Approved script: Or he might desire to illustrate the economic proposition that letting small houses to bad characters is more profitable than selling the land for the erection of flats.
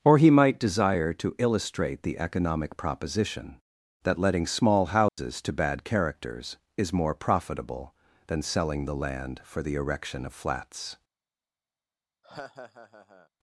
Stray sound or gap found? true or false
true